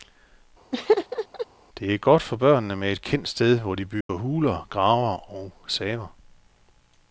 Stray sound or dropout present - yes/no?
yes